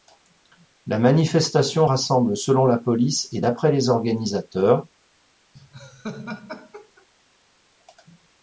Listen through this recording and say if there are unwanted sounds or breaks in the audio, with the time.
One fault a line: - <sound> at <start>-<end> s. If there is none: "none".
- laugh at 5.5-7.1 s